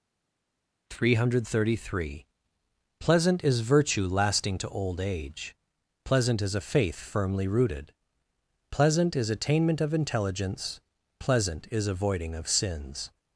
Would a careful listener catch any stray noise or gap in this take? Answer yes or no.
no